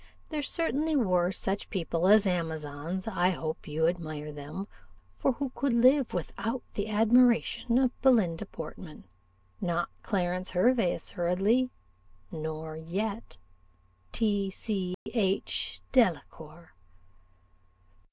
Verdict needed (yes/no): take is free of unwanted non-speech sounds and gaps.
no